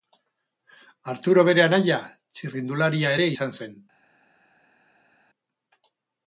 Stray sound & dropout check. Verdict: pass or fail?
pass